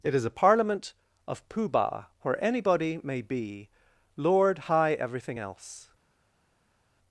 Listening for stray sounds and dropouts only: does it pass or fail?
pass